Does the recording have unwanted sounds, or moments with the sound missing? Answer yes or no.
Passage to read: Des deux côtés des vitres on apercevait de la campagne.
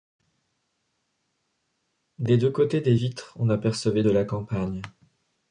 no